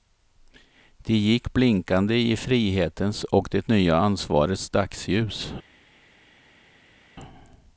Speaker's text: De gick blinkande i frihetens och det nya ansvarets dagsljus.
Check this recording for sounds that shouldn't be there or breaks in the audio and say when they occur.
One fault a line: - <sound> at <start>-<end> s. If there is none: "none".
none